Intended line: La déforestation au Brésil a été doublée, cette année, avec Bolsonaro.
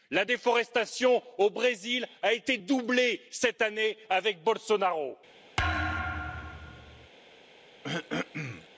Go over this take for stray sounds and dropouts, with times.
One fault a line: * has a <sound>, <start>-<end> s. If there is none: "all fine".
* has a thud, 5.6-7.1 s
* has a throat clearing, 7.8-8.7 s